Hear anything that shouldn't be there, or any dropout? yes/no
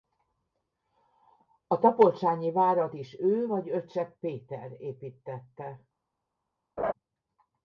yes